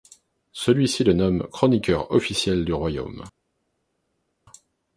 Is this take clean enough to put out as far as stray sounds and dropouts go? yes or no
yes